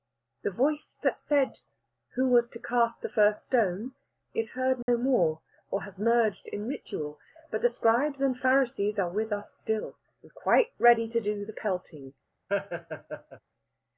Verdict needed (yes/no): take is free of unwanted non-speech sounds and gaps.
no